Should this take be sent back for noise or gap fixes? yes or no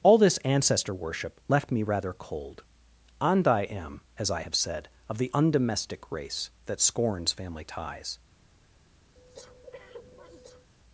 yes